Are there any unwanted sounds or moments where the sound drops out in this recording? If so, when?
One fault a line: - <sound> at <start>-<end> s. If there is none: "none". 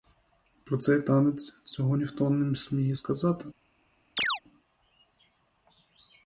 - chirp at 4.2-4.4 s